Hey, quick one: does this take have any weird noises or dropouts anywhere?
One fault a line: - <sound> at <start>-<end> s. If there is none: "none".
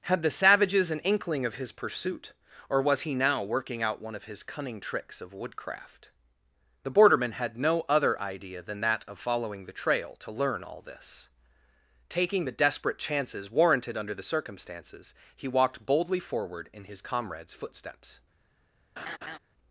- laugh at 19.0-19.4 s